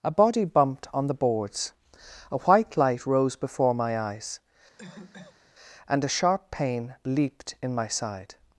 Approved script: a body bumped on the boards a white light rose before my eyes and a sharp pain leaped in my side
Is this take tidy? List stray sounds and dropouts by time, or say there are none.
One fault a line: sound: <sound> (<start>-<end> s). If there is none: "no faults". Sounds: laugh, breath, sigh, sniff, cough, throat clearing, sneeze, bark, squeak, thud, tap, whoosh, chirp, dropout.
sound: cough (4.8-5.5 s)